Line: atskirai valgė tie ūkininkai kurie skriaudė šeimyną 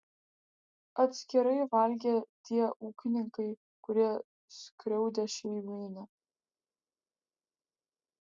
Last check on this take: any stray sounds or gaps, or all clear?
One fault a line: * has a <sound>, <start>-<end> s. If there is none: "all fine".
all fine